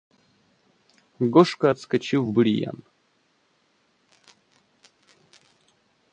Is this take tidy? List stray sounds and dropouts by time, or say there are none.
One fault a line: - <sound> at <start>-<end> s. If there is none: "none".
none